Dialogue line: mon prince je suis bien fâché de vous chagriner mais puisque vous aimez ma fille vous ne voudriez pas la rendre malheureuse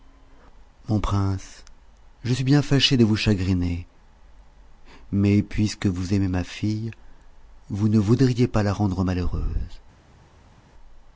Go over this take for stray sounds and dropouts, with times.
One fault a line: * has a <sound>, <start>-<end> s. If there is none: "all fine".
all fine